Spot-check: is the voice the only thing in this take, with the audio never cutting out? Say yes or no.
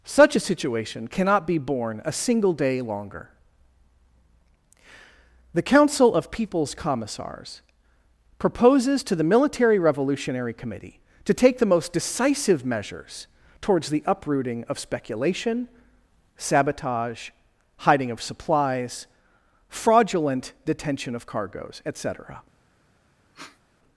no